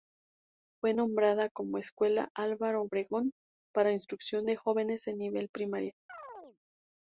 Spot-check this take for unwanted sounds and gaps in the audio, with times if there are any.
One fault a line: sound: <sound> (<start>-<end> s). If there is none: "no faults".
sound: chirp (6.1-6.6 s)